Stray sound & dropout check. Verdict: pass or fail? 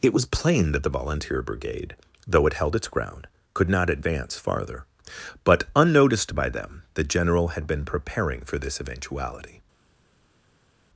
pass